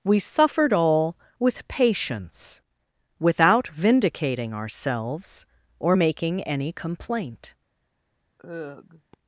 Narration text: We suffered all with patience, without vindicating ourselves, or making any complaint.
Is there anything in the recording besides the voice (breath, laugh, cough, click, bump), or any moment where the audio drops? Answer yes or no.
yes